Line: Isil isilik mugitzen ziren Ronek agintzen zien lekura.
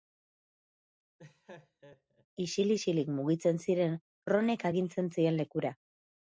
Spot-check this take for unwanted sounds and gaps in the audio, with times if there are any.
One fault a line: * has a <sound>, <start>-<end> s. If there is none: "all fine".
* has a laugh, 1.2-2.3 s